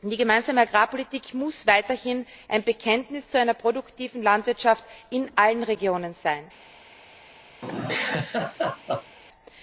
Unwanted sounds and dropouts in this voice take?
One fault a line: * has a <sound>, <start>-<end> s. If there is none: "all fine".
* has a laugh, 7.6-9.2 s